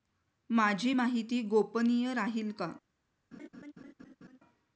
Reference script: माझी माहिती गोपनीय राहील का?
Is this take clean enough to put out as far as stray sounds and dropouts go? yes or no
no